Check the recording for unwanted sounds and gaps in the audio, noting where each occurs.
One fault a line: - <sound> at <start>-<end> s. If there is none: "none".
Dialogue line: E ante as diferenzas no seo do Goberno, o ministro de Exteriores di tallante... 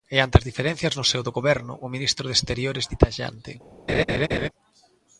- laugh at 3.9-4.5 s